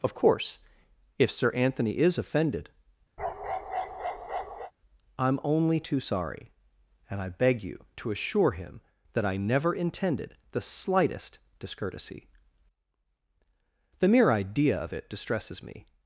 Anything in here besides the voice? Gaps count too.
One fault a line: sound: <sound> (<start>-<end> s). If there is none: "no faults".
sound: bark (3.2-4.7 s)